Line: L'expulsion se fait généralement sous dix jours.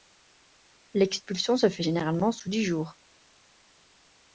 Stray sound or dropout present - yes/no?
no